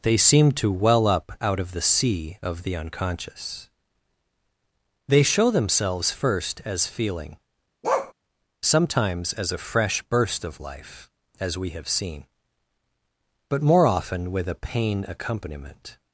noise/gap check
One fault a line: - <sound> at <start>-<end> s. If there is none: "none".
- bark at 7.8-8.1 s